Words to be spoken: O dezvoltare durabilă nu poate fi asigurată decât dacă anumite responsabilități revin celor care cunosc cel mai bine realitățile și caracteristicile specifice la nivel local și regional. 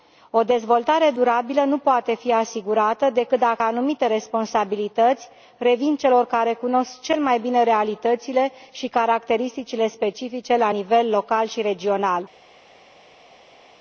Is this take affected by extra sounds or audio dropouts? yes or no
no